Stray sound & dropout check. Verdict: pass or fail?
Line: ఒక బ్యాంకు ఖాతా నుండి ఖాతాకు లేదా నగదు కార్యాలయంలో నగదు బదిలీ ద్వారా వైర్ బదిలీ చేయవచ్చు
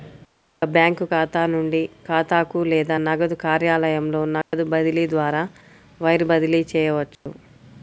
fail